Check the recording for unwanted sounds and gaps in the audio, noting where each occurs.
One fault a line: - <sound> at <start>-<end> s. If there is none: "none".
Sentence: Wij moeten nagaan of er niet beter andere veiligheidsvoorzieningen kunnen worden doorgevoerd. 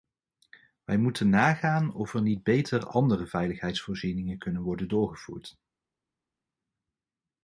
none